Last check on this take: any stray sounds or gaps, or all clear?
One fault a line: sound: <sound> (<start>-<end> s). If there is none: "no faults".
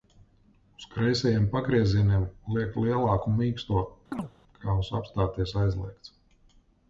sound: chirp (4.1-4.3 s)